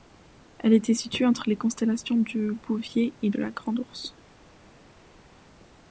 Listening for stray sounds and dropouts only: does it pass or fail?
pass